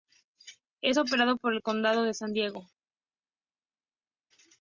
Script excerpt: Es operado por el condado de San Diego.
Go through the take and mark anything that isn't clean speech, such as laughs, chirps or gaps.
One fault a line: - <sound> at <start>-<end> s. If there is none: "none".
none